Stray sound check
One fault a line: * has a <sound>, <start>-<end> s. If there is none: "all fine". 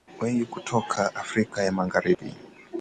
* has a dropout, 2.1-2.2 s